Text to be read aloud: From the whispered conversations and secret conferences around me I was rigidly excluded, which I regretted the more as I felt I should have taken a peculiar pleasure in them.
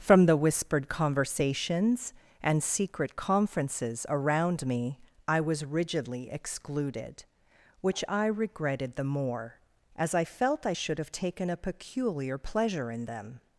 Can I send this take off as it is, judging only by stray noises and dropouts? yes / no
yes